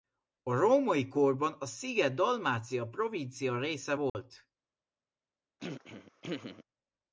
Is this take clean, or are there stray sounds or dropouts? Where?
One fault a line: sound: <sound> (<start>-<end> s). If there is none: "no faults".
sound: dropout (4.1-4.2 s)
sound: throat clearing (5.6-6.6 s)